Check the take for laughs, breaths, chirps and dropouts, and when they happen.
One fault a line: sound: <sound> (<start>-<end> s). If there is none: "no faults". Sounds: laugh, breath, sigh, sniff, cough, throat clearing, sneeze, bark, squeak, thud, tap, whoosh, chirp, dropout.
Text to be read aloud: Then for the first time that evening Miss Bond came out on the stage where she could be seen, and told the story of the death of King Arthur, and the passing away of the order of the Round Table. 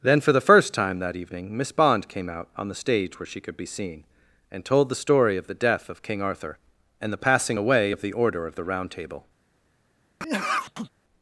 sound: sneeze (10.2-10.9 s)